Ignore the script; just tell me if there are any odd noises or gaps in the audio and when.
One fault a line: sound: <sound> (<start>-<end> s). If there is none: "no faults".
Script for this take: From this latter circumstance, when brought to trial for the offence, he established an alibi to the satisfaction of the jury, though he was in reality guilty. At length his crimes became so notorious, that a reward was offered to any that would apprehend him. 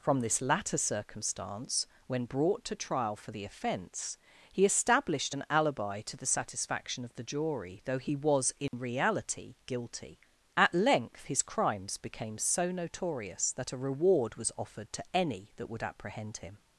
sound: dropout (8.7-8.7 s)